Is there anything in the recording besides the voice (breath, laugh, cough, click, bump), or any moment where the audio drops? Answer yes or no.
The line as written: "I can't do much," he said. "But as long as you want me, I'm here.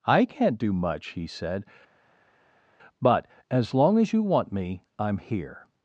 no